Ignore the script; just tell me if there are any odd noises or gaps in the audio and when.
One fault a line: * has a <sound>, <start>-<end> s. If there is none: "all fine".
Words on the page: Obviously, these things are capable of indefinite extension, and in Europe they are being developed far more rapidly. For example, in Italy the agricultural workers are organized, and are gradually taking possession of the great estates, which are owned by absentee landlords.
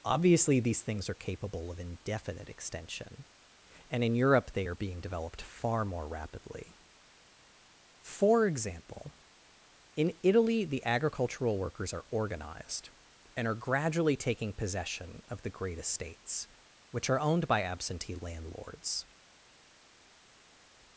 all fine